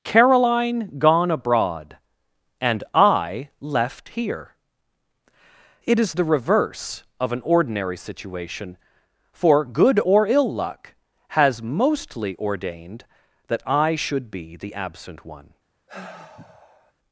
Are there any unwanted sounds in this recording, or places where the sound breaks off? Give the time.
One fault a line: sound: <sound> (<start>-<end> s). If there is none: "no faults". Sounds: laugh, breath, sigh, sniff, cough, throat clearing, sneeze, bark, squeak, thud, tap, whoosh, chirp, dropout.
sound: sigh (15.9-16.9 s)